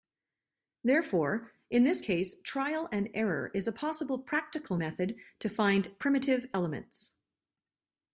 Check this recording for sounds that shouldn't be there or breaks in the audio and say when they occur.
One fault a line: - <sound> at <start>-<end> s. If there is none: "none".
none